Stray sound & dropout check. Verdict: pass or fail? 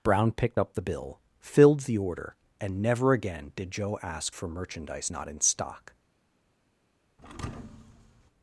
fail